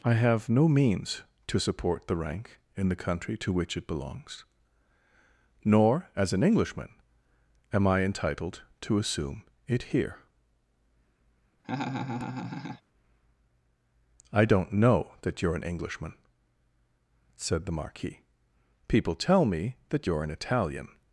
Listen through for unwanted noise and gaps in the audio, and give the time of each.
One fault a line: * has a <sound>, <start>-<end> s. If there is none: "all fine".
* has a laugh, 11.6-12.8 s